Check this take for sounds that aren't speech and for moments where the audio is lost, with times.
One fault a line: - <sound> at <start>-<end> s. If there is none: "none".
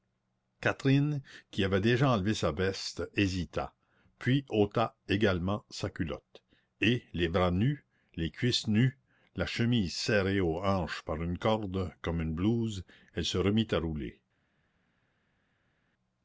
none